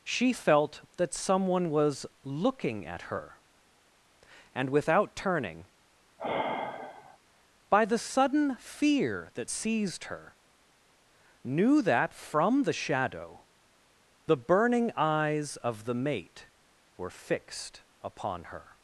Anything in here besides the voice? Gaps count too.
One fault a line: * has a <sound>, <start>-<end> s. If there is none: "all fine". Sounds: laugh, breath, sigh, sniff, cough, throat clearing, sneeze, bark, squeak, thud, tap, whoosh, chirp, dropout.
* has a sigh, 6.2-7.2 s